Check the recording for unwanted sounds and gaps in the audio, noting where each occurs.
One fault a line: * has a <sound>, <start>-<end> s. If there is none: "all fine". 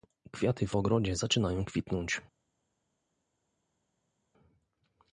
all fine